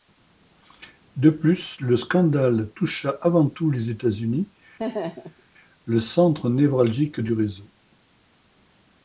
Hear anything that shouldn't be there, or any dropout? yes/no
yes